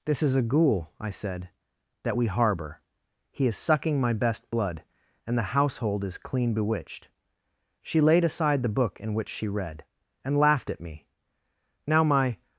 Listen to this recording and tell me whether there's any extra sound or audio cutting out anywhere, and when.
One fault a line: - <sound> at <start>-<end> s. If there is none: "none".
none